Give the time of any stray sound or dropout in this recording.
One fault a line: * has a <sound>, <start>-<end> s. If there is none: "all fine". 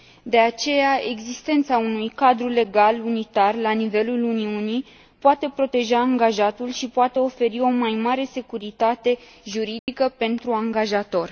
* has a dropout, 9.8-9.9 s